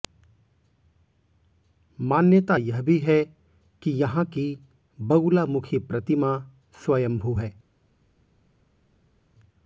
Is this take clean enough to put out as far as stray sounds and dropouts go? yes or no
yes